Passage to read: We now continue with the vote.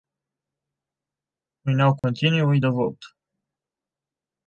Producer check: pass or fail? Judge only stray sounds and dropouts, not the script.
fail